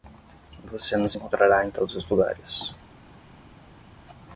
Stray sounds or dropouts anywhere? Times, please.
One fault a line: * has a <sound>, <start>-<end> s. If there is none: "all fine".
all fine